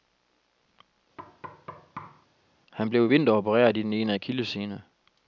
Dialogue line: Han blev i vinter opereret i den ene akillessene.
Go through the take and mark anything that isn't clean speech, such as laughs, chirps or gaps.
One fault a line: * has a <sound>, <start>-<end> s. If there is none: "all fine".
* has a thud, 1.2-2.3 s